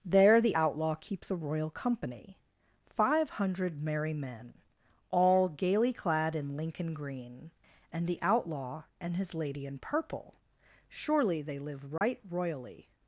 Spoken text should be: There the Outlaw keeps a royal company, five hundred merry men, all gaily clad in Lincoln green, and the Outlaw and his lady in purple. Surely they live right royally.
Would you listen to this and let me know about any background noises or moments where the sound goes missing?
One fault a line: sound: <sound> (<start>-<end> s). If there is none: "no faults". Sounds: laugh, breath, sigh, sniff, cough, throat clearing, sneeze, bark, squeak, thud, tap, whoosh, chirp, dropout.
sound: dropout (12.0-12.0 s)